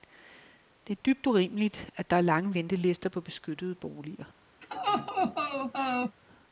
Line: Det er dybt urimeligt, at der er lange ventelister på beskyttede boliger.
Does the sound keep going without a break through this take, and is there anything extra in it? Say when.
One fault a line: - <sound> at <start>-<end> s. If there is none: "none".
- laugh at 4.6-6.2 s